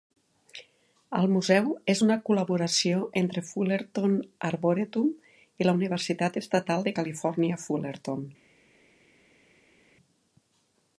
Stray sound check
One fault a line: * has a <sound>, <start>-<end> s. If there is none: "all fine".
all fine